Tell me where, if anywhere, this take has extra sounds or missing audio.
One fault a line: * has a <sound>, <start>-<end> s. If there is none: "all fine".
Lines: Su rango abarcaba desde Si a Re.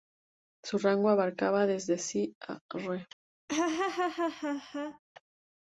* has a laugh, 3.5-5.0 s